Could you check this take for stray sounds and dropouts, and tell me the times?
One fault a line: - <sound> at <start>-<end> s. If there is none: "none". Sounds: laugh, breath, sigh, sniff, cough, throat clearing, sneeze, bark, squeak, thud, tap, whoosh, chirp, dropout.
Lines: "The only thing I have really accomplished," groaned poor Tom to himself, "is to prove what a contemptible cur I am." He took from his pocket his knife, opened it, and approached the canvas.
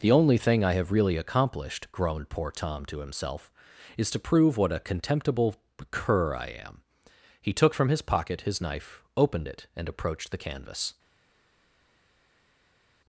none